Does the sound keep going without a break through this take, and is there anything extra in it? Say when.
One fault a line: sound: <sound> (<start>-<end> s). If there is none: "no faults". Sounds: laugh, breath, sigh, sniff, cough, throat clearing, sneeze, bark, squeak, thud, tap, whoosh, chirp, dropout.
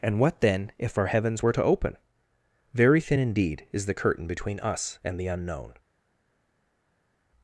no faults